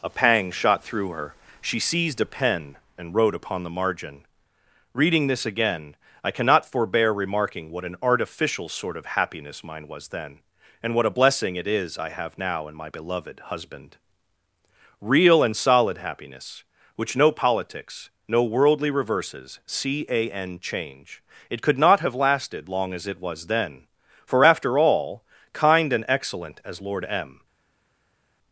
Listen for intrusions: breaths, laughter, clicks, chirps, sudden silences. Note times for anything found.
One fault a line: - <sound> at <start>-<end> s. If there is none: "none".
none